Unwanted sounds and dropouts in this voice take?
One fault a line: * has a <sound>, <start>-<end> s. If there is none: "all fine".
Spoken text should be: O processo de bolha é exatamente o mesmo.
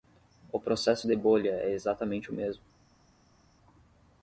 all fine